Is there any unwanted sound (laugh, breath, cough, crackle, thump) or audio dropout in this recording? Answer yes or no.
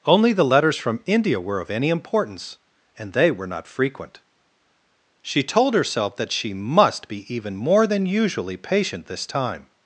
no